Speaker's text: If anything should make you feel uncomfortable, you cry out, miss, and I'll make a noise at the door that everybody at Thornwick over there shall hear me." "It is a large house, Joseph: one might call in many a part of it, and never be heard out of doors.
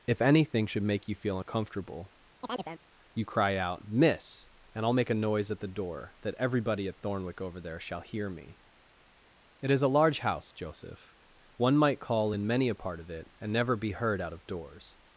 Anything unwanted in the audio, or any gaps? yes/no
yes